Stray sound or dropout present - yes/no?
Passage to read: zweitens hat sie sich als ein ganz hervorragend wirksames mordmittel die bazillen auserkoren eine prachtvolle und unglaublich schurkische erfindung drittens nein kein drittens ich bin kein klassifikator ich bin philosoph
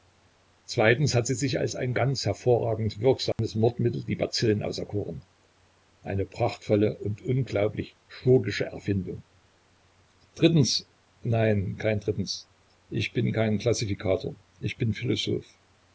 yes